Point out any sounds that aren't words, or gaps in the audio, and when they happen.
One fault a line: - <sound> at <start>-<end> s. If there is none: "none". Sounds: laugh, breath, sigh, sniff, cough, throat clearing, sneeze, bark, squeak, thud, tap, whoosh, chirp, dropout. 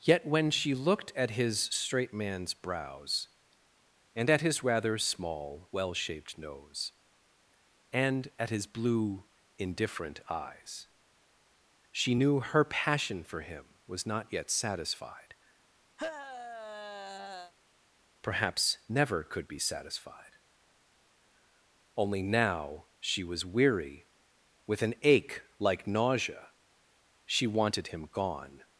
- sigh at 16.0-17.5 s